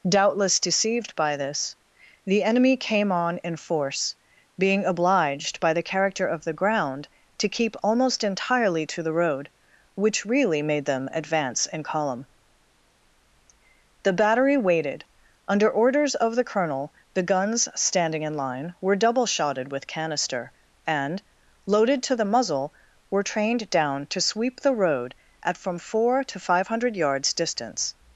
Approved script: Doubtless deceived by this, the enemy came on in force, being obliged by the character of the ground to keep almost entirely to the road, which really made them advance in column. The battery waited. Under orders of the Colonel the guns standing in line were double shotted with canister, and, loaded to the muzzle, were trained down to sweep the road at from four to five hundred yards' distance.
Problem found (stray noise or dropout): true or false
false